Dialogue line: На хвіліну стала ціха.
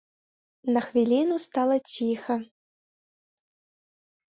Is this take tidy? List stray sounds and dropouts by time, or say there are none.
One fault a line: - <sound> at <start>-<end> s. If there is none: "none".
none